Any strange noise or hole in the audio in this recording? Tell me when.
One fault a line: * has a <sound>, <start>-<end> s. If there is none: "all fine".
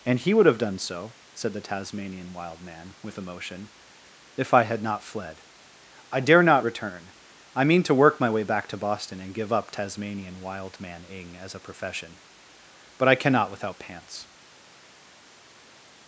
all fine